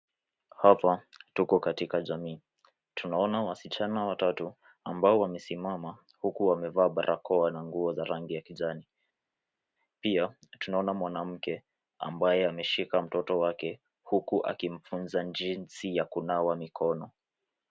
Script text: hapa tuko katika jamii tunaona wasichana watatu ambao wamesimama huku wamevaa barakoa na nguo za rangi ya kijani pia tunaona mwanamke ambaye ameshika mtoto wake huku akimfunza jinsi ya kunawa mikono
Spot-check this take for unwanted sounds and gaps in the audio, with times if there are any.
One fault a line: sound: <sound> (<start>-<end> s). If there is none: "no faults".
no faults